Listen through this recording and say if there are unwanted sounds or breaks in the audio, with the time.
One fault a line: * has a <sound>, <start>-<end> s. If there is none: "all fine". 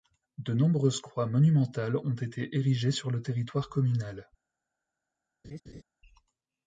* has a laugh, 5.4-5.8 s